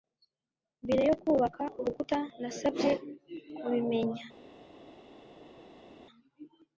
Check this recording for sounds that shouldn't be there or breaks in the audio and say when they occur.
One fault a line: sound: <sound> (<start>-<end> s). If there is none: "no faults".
no faults